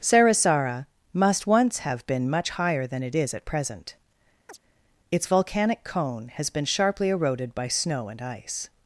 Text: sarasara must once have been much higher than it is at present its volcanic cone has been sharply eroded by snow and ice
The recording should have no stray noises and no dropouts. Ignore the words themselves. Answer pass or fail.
fail